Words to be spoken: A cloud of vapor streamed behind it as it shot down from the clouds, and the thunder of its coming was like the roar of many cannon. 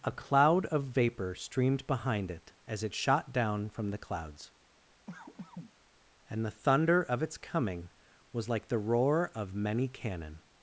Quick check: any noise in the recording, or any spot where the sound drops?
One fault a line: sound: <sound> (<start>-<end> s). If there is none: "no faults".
sound: cough (5.1-5.7 s)